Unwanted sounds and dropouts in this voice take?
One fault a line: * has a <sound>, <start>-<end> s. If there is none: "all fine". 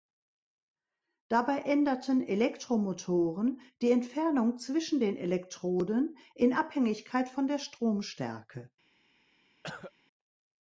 * has a cough, 9.6-9.9 s